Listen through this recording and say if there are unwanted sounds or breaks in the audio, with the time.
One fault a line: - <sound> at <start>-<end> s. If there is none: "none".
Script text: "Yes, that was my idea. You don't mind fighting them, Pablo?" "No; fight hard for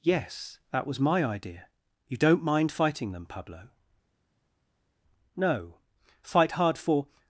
none